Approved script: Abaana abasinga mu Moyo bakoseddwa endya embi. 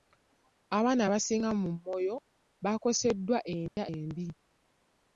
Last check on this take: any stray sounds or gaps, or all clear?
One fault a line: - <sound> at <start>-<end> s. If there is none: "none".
- dropout at 3.7-3.8 s